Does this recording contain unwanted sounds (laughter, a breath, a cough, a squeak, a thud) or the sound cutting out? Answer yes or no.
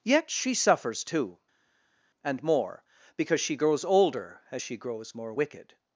no